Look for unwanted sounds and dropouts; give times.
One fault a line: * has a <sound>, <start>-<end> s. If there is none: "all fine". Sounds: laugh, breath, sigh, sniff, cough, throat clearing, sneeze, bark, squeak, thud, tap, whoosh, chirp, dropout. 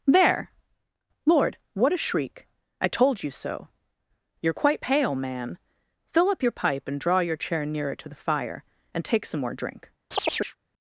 * has a chirp, 10.1-10.6 s